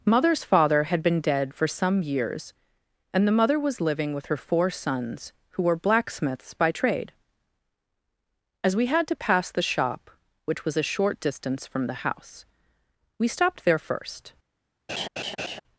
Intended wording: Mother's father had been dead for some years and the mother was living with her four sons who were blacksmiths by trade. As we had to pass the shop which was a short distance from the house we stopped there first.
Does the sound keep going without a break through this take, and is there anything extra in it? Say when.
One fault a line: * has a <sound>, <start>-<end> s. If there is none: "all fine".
* has a laugh, 14.9-15.6 s